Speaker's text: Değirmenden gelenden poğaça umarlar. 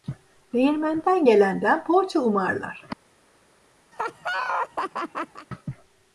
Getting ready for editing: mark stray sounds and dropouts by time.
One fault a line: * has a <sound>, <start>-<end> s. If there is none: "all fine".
* has a laugh, 3.9-5.5 s